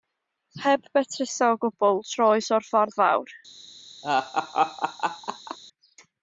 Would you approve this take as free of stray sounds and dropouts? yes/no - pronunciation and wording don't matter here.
no